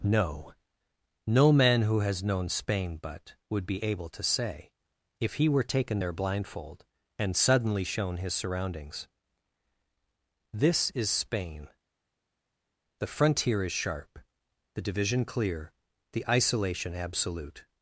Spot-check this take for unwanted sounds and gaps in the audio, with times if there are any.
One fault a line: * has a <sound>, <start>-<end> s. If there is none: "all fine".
all fine